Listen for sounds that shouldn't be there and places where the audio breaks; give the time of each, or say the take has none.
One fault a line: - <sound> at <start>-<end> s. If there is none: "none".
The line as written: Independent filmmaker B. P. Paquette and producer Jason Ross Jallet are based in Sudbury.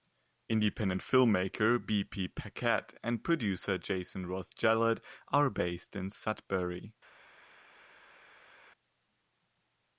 none